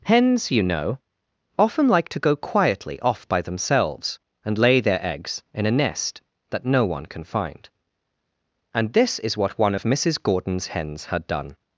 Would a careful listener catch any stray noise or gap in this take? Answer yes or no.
no